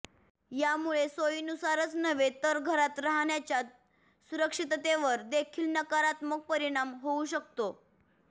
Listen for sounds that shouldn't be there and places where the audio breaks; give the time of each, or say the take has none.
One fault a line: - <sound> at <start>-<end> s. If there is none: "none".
none